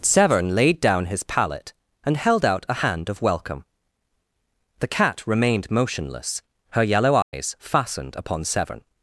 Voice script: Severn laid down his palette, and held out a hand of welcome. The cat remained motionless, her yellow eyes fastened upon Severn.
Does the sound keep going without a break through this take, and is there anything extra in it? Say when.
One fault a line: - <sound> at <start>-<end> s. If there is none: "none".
- dropout at 7.2-7.3 s